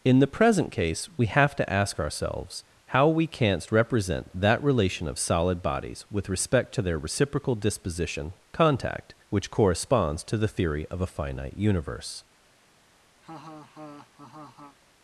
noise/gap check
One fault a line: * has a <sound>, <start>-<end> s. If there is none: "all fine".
* has a laugh, 13.2-14.8 s